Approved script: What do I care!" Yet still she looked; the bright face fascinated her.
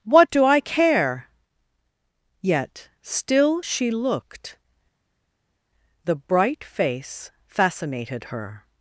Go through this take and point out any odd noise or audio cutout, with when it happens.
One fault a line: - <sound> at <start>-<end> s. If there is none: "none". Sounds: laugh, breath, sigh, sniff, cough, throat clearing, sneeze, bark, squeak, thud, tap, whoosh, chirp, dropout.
none